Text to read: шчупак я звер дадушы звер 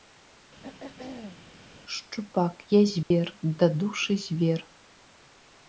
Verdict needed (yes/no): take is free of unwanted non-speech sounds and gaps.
no